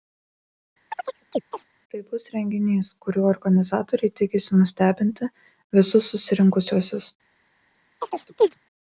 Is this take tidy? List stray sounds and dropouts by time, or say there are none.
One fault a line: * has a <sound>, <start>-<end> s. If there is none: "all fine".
* has a chirp, 0.9-1.7 s
* has a chirp, 8.0-8.6 s